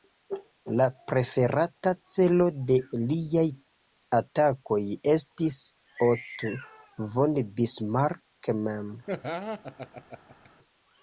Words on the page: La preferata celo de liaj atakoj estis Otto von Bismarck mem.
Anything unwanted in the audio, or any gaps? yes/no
yes